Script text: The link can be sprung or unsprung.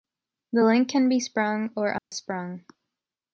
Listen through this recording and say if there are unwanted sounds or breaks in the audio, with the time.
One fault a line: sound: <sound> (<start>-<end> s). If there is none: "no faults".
sound: dropout (2.0-2.1 s)